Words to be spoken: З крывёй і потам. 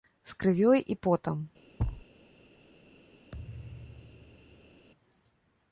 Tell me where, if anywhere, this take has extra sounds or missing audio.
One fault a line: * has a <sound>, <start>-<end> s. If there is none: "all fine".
* has a thud, 1.8-2.1 s
* has a thud, 3.3-4.9 s